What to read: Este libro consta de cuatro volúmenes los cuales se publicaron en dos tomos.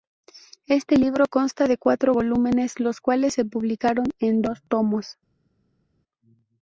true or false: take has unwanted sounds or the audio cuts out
false